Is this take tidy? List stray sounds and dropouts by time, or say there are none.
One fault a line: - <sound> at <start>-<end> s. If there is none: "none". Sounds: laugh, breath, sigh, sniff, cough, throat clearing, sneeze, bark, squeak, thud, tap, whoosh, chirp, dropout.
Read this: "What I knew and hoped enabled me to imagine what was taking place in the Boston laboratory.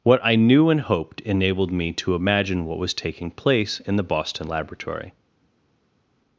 none